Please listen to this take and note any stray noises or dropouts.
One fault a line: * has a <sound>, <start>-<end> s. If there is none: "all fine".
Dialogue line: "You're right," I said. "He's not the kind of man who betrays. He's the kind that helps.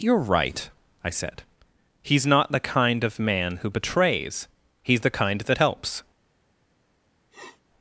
* has a sniff, 7.3-7.6 s